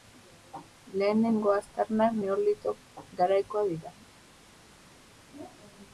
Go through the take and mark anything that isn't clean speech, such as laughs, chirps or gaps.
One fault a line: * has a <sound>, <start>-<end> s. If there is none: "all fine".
all fine